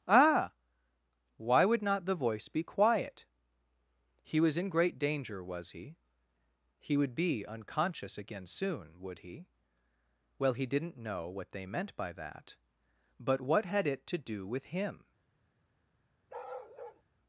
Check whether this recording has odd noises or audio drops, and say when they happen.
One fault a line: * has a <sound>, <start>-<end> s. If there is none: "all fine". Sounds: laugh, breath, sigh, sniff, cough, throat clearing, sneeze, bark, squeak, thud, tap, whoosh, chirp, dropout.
* has a bark, 16.3-17.0 s